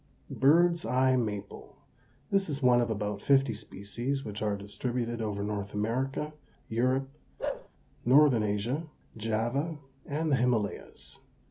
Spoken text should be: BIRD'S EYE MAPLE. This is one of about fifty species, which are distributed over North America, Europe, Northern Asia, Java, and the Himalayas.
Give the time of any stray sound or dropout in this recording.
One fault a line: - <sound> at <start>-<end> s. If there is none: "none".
- bark at 7.4-7.7 s